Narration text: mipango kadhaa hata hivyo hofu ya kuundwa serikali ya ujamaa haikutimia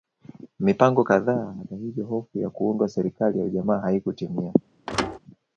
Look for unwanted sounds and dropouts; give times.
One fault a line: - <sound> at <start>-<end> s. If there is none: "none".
- thud at 4.9-5.2 s